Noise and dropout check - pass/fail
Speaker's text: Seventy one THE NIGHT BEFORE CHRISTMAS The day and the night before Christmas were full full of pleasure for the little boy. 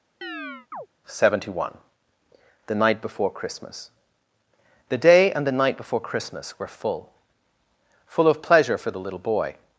fail